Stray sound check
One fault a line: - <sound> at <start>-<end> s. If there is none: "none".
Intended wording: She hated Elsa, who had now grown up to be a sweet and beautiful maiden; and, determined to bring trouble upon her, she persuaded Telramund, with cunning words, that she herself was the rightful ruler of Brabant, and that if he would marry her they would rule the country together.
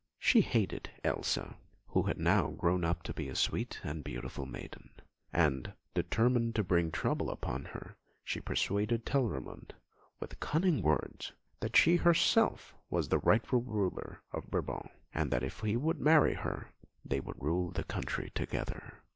none